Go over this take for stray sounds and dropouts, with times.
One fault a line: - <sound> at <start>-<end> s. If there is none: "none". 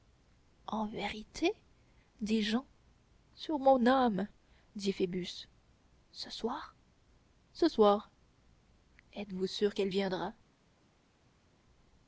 none